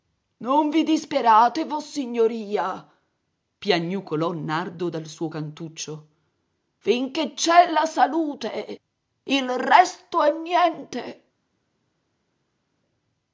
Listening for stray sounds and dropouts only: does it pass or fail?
pass